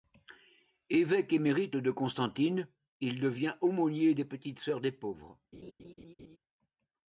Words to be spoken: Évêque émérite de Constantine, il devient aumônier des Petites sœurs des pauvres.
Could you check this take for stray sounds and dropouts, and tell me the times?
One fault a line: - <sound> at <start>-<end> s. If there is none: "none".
- laugh at 5.5-6.4 s